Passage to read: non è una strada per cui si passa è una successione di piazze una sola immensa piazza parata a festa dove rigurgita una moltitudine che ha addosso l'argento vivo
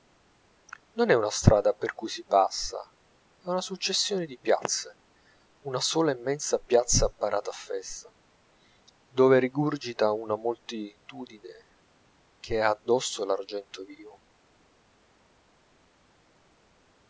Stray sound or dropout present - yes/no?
no